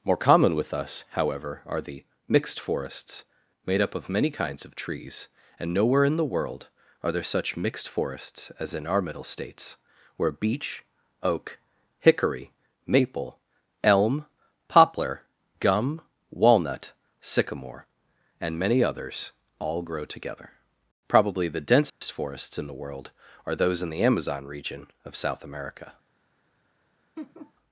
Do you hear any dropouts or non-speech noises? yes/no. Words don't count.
yes